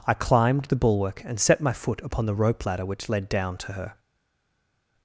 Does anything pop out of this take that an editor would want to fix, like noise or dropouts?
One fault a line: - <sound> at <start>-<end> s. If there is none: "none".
none